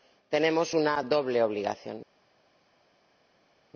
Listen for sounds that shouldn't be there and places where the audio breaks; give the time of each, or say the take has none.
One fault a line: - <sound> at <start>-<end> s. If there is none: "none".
none